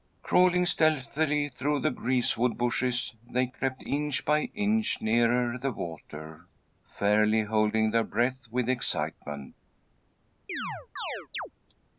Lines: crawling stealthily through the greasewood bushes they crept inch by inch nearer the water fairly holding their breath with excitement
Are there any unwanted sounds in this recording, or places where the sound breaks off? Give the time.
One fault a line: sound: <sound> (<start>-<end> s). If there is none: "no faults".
sound: chirp (10.5-11.5 s)